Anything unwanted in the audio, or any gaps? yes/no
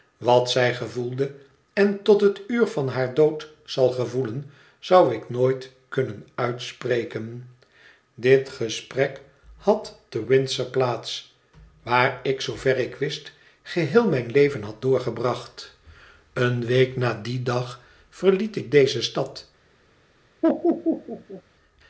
yes